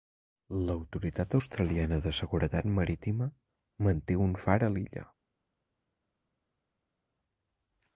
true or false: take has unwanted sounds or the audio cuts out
false